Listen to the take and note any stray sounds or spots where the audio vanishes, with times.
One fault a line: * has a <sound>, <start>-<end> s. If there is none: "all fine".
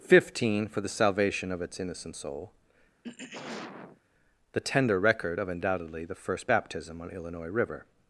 * has a throat clearing, 3.0-4.0 s